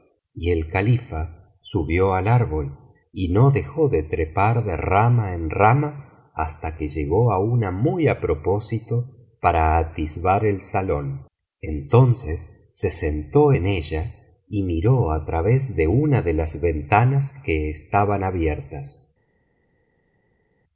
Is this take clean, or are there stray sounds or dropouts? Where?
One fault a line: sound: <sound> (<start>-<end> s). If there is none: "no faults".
no faults